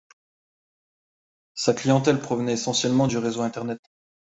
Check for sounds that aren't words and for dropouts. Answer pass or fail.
pass